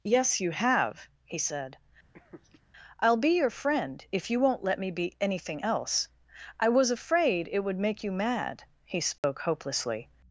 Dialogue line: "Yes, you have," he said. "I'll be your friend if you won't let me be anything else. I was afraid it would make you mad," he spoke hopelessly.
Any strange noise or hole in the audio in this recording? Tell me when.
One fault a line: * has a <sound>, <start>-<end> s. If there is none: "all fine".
* has a laugh, 2.1-2.6 s
* has a dropout, 9.2-9.2 s